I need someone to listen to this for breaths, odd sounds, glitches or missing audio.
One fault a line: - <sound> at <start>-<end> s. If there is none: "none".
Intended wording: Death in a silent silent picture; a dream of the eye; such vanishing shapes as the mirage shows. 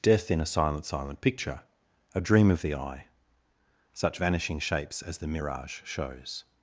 none